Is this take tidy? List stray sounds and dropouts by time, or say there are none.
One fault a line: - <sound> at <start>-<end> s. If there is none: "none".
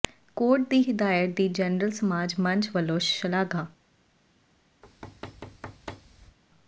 - thud at 4.8-6.4 s